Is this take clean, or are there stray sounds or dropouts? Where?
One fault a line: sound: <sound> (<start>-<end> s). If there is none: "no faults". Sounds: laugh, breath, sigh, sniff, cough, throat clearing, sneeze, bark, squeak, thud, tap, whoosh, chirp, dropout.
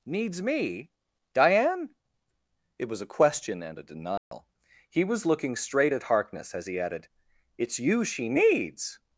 sound: dropout (4.2-4.3 s)